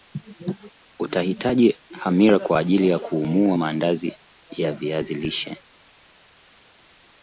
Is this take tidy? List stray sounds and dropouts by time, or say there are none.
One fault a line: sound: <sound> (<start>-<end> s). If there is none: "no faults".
no faults